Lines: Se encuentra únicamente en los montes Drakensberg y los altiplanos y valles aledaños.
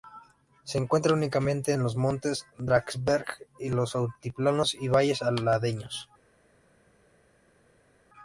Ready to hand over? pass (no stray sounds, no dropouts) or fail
pass